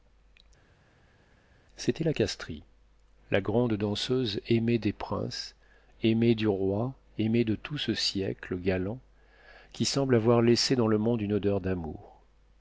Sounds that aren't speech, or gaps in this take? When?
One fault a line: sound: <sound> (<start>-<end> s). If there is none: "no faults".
no faults